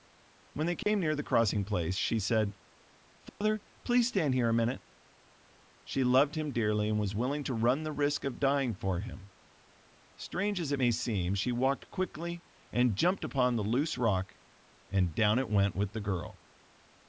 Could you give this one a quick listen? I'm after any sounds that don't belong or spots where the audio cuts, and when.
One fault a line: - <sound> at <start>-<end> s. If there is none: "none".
- dropout at 0.8-0.9 s
- dropout at 3.3-3.4 s